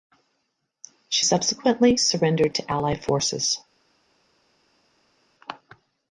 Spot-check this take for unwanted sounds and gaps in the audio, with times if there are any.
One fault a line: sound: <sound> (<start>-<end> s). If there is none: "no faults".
no faults